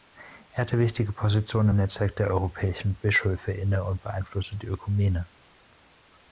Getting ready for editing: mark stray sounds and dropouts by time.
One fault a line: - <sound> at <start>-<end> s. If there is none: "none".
none